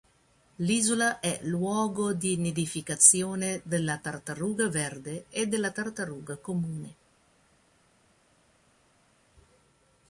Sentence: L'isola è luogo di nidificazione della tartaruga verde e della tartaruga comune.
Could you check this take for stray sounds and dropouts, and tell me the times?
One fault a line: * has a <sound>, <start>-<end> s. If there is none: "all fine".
all fine